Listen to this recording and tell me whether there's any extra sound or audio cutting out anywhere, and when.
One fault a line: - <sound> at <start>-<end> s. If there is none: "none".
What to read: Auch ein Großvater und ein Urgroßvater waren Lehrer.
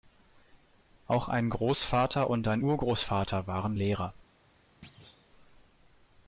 - thud at 4.8-5.3 s